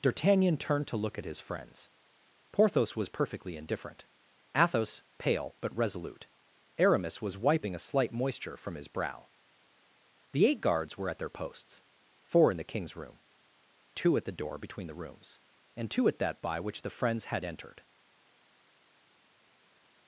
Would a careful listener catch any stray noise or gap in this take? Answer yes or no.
no